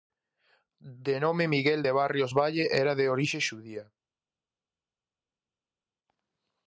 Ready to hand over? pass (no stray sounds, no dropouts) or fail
pass